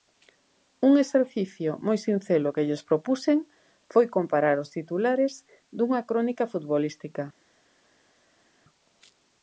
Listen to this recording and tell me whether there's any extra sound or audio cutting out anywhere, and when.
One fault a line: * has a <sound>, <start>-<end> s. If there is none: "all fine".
all fine